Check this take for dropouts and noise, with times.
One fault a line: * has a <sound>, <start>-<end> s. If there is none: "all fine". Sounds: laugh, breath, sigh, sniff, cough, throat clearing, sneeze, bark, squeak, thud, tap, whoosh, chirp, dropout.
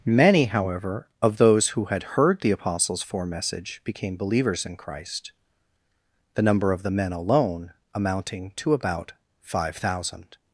all fine